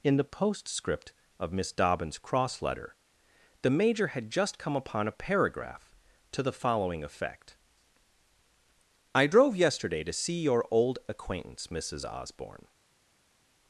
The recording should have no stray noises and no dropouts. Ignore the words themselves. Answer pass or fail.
pass